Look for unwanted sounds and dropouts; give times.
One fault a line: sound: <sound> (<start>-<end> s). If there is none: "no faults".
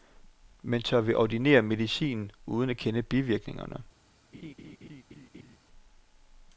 sound: laugh (4.3-5.6 s)